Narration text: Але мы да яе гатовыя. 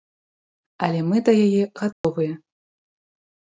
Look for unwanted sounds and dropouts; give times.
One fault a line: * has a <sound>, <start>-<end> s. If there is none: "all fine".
* has a dropout, 1.9-2.0 s